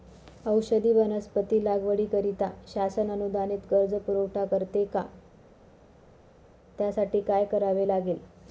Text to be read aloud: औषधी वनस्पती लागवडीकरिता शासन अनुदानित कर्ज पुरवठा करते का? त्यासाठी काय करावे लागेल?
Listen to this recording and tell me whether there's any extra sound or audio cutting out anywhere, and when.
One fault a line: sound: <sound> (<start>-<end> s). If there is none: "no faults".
no faults